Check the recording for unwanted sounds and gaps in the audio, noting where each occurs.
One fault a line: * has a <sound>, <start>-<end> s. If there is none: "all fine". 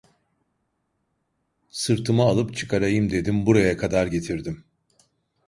all fine